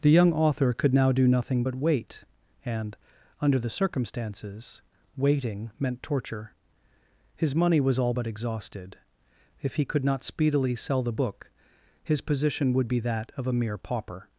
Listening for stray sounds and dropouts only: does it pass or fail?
pass